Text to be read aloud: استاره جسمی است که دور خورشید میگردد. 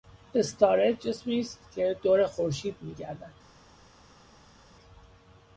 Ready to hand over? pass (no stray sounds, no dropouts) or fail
pass